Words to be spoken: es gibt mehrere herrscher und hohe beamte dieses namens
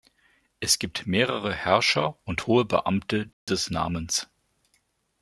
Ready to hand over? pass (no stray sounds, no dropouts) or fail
fail